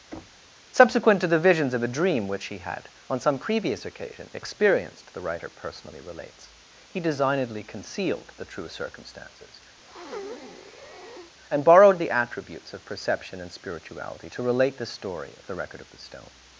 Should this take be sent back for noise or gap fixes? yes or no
yes